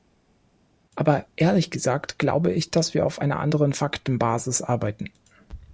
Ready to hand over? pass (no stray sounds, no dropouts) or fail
pass